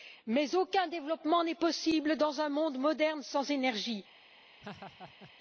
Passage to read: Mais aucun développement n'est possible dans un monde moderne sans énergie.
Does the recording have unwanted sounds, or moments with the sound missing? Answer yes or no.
yes